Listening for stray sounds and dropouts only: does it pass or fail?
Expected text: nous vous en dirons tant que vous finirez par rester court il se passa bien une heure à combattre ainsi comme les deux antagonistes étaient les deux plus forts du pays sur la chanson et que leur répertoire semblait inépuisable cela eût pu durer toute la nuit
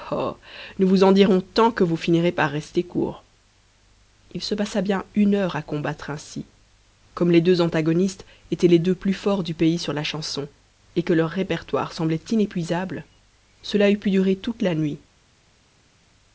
pass